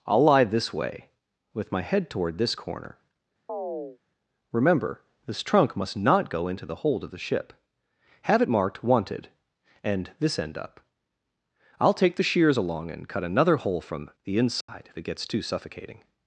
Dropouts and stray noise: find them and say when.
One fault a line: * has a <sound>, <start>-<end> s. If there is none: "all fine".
* has a chirp, 3.5-4.0 s
* has a dropout, 14.6-14.7 s